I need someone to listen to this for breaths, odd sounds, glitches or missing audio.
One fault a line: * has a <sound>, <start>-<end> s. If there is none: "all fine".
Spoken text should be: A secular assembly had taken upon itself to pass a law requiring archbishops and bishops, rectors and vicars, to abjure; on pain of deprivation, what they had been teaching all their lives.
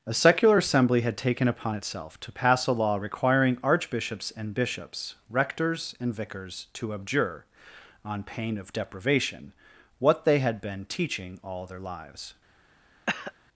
* has a cough, 13.1-13.3 s